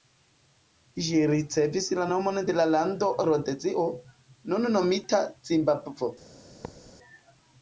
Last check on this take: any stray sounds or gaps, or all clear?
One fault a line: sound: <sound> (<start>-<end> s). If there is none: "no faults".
sound: thud (6.6-6.9 s)